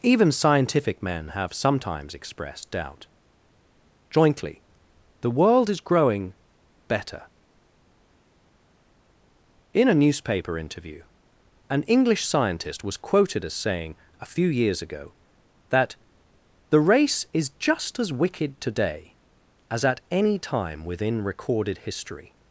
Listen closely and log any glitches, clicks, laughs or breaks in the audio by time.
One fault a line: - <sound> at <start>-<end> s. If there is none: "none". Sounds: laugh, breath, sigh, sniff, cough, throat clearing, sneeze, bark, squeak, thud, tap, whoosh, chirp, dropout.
none